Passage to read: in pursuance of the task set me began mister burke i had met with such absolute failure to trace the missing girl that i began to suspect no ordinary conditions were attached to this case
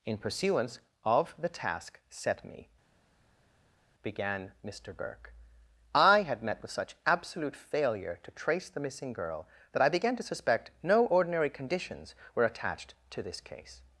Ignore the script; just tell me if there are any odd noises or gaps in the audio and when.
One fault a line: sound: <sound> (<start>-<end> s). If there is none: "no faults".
no faults